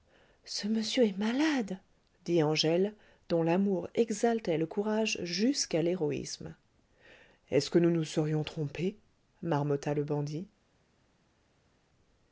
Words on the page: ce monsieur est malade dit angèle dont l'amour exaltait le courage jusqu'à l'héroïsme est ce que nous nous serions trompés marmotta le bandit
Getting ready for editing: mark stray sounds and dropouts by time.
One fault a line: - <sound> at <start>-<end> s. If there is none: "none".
none